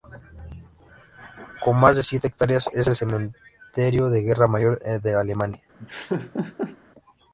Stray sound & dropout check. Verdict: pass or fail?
fail